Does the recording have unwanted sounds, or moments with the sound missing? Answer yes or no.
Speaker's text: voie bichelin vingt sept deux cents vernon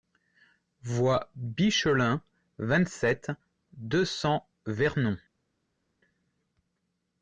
no